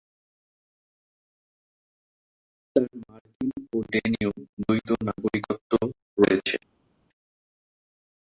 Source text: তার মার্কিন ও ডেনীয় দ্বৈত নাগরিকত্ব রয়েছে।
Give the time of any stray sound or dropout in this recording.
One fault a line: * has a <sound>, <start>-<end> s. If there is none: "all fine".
all fine